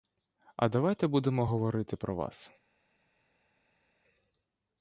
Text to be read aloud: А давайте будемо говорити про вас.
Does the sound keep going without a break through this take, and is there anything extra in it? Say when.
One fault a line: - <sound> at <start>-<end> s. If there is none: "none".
none